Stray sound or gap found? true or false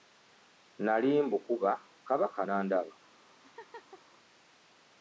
true